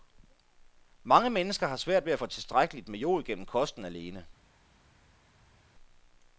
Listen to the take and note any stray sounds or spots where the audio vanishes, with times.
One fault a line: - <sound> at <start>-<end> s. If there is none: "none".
none